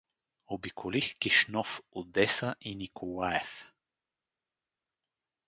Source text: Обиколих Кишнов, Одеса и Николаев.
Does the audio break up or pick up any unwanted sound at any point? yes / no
no